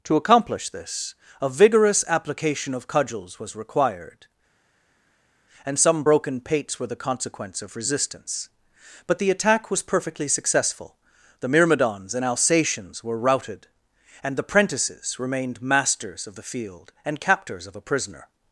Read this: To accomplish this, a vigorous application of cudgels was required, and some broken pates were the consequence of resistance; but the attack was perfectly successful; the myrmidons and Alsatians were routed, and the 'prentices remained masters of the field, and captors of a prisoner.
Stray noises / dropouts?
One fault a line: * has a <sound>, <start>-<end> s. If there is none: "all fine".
all fine